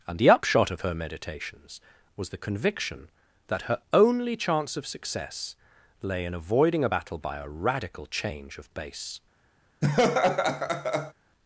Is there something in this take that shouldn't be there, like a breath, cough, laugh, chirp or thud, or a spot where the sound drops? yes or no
yes